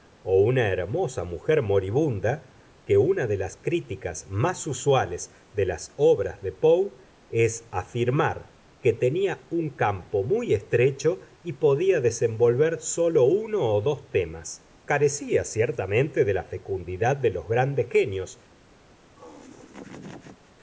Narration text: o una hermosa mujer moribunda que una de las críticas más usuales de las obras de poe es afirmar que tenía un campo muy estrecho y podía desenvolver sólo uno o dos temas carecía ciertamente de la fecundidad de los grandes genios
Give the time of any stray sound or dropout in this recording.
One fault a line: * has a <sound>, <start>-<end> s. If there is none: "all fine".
* has a laugh, 19.2-20.5 s